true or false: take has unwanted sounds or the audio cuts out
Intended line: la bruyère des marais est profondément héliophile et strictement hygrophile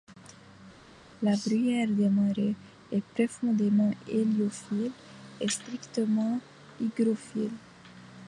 false